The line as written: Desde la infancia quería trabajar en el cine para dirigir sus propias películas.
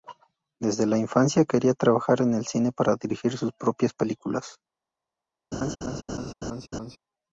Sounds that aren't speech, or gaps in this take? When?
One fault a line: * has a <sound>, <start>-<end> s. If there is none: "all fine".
* has a laugh, 5.5-7.0 s